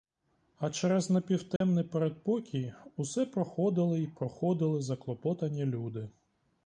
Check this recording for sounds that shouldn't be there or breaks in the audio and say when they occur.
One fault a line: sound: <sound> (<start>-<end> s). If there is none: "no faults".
sound: dropout (1.6-1.6 s)